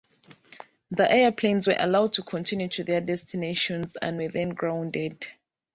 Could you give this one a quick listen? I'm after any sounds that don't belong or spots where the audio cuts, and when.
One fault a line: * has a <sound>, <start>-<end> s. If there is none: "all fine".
all fine